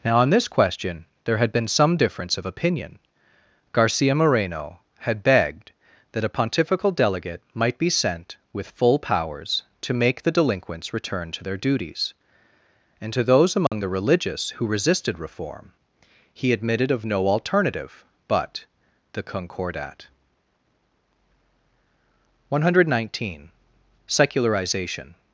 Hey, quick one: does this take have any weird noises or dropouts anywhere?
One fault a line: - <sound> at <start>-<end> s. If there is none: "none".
- dropout at 13.7-13.7 s